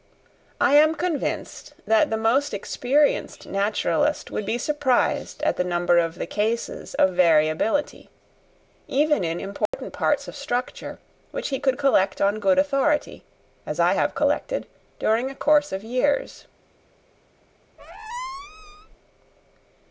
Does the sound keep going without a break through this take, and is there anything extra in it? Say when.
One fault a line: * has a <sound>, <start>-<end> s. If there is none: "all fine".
* has a dropout, 9.7-9.7 s
* has a squeak, 17.8-19.0 s